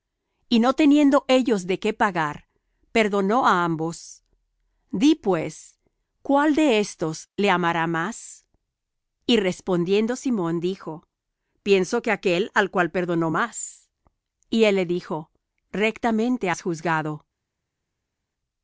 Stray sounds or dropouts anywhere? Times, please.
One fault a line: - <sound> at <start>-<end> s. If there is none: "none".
none